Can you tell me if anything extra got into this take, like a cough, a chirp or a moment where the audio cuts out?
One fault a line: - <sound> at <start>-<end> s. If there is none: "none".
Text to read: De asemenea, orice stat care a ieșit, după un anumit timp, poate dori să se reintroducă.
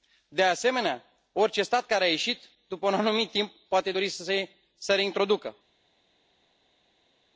none